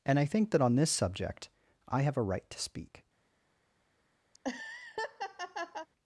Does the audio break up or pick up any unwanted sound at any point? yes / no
yes